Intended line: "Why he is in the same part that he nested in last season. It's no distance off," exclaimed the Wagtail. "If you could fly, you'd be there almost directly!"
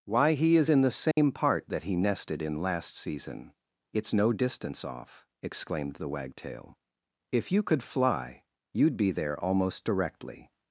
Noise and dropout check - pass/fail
fail